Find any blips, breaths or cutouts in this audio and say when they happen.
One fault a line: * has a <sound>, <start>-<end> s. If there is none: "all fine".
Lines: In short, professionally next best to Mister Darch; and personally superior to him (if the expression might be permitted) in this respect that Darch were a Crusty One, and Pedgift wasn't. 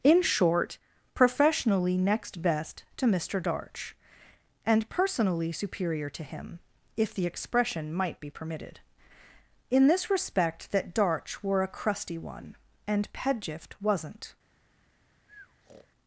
* has a breath, 15.3-15.9 s